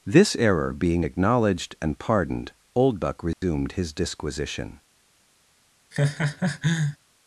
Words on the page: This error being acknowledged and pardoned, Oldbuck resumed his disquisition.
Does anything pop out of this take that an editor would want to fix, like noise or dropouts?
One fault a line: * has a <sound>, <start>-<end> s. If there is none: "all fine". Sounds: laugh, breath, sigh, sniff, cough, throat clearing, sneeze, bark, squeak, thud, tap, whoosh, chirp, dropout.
* has a dropout, 3.3-3.4 s
* has a laugh, 5.9-7.0 s